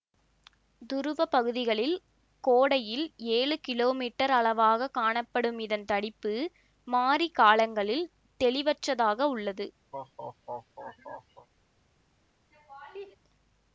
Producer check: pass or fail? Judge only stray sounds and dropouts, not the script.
fail